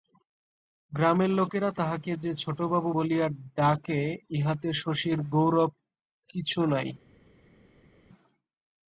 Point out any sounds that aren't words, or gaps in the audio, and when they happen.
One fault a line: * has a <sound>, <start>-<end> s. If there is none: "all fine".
all fine